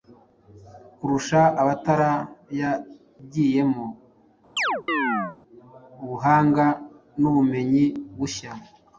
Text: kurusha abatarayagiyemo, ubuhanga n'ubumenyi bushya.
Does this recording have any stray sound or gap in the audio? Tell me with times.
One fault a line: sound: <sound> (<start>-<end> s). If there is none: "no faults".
sound: chirp (4.6-5.4 s)